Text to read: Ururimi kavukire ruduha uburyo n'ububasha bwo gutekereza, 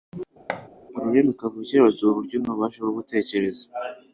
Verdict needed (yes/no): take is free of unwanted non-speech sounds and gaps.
no